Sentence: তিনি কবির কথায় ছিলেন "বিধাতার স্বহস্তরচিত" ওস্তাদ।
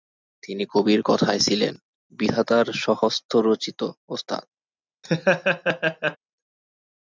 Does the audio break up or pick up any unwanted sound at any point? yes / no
yes